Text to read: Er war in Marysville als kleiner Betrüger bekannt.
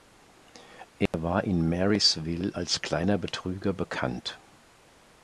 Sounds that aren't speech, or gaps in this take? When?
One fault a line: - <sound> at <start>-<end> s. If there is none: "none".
- dropout at 1.1-1.1 s